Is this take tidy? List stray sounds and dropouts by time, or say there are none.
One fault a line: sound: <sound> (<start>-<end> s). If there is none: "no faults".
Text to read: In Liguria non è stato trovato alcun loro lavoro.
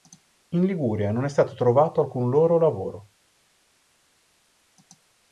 no faults